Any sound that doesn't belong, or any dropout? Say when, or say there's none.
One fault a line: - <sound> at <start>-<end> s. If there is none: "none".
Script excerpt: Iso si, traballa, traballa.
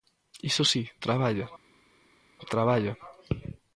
none